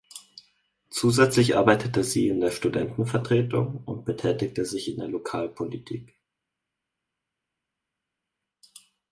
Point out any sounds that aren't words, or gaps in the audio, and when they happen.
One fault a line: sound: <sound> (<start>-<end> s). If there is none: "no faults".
no faults